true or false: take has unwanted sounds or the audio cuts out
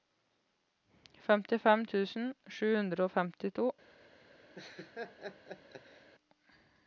true